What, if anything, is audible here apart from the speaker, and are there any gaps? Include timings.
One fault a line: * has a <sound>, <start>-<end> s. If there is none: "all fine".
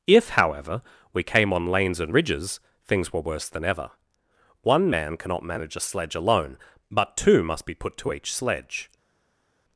all fine